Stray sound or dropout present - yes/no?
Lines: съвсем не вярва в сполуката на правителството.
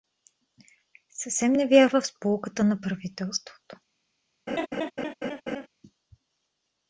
yes